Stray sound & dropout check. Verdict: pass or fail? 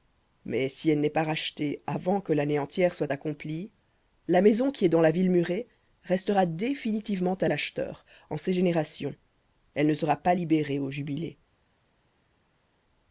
pass